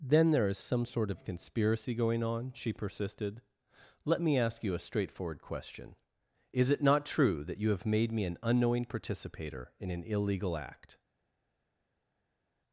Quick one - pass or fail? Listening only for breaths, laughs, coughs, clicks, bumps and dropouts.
pass